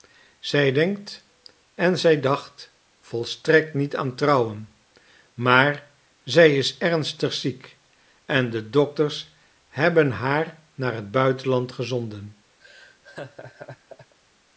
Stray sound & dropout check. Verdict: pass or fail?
fail